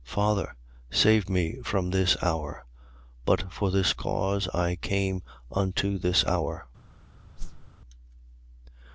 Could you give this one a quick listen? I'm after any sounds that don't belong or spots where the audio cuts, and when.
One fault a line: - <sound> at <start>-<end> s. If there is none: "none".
- whoosh at 7.4-7.7 s